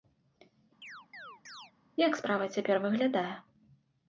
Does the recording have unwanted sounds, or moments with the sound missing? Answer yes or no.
yes